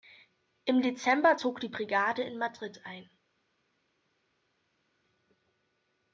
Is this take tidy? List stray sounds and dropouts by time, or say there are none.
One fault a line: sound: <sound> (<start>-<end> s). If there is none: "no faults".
no faults